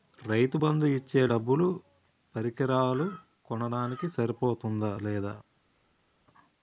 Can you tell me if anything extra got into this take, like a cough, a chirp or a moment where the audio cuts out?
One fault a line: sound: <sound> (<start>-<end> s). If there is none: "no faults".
no faults